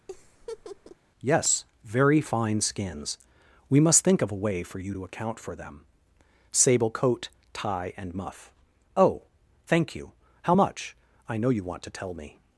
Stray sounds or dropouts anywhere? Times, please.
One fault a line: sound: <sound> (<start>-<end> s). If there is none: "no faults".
sound: laugh (0.1-1.0 s)